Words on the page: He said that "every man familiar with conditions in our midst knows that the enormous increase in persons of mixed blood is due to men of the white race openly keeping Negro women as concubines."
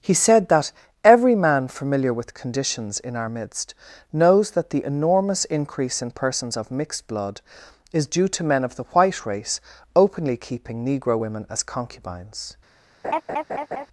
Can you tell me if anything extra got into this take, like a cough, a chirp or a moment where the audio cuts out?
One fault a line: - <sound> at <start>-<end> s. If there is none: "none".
- laugh at 13.0-13.9 s